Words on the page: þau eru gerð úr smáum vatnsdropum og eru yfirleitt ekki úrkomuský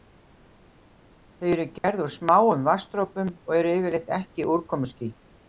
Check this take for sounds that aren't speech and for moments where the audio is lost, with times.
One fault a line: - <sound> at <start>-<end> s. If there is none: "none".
- dropout at 1.8-1.8 s